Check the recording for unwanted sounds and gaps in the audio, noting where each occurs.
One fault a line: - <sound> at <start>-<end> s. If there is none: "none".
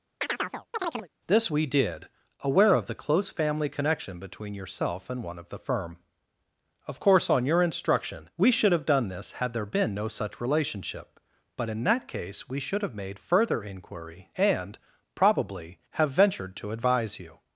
- chirp at 0.2-1.1 s